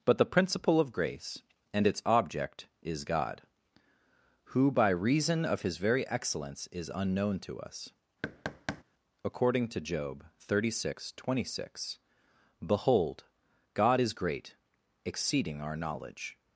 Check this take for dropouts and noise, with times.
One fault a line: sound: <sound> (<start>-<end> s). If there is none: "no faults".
sound: thud (8.2-8.8 s)